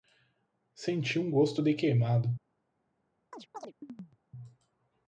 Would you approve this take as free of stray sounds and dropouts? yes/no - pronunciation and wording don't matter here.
no